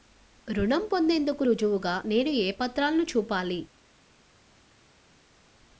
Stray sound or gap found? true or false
false